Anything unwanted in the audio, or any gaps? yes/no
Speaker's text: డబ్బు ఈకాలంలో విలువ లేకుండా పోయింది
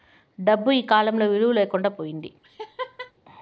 yes